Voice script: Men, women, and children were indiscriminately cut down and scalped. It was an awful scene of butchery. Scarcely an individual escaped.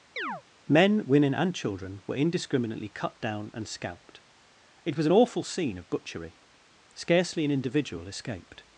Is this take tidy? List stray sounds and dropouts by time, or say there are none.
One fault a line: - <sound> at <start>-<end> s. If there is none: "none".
- chirp at 0.2-0.4 s